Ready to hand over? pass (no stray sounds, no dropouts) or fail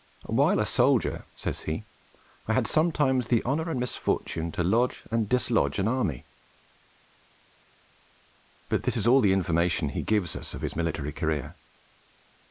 pass